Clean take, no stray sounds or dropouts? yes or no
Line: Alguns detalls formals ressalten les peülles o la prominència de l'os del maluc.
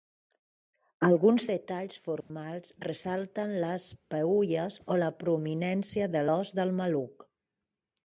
no